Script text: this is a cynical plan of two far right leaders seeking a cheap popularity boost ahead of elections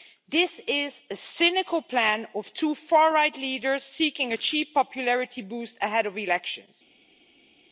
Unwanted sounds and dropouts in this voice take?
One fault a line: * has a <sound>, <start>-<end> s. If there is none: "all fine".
all fine